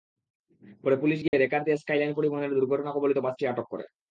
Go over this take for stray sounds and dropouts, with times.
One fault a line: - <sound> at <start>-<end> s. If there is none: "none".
- dropout at 1.3-1.3 s